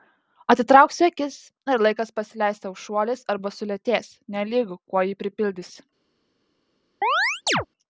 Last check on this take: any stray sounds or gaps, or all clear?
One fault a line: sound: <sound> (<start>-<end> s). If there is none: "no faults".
sound: chirp (7.0-7.7 s)